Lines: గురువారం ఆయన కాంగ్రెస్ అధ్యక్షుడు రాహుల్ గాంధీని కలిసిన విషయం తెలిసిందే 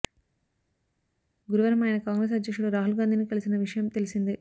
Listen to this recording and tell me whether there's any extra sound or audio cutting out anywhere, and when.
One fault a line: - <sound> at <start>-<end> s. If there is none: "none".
none